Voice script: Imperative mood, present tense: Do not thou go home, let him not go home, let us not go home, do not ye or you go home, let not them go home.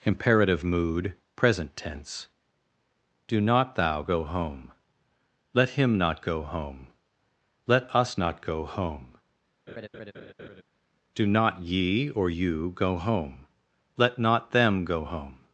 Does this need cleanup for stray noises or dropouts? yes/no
yes